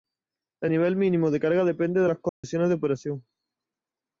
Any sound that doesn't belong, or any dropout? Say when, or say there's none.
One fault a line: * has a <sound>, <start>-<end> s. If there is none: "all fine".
* has a dropout, 2.3-2.4 s